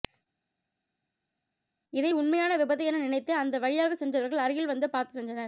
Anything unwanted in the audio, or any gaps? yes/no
no